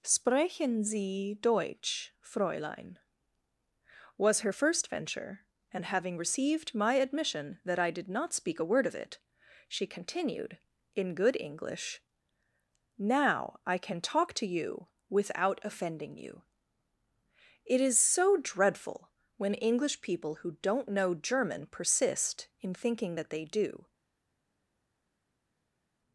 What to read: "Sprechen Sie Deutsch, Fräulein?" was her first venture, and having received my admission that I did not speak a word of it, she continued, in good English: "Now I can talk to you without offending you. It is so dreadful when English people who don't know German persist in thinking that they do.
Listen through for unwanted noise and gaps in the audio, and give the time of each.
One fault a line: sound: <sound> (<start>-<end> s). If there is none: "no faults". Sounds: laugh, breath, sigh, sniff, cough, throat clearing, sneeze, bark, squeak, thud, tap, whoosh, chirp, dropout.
no faults